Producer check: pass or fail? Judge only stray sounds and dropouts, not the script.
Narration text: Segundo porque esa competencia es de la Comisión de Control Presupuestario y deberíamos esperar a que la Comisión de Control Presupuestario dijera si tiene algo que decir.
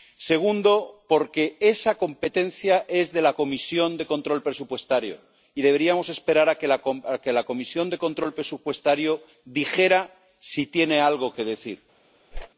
fail